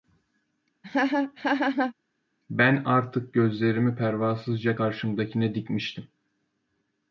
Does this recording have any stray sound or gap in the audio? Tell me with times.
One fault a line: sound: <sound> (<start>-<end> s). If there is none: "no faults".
sound: laugh (0.8-1.9 s)